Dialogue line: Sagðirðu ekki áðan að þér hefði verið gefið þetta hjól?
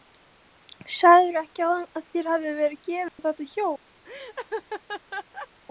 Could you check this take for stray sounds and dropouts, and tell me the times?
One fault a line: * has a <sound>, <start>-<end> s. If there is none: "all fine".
* has a dropout, 3.1-3.2 s
* has a laugh, 4.0-5.5 s